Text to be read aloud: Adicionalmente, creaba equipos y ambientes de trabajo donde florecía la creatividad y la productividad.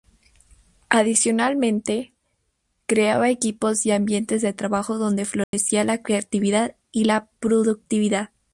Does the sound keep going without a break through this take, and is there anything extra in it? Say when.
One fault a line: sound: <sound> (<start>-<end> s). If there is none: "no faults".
sound: dropout (5.4-5.5 s)